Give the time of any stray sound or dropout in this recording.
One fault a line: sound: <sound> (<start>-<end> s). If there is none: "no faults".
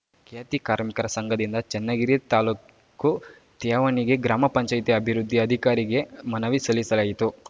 no faults